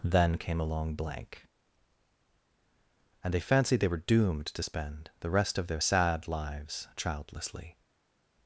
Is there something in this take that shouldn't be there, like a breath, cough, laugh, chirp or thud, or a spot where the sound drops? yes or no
no